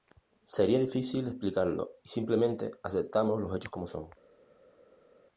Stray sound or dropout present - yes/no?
no